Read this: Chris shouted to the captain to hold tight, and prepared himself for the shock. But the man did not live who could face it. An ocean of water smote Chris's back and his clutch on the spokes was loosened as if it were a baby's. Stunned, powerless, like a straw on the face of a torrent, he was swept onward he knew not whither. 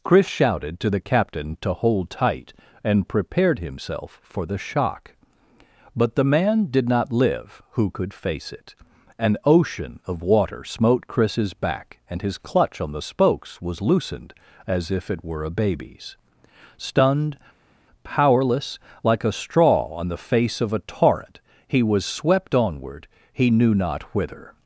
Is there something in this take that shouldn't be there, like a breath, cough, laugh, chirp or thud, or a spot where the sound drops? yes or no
no